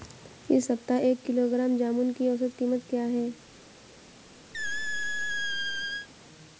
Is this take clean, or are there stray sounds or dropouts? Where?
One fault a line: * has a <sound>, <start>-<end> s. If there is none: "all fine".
* has a squeak, 4.5-6.1 s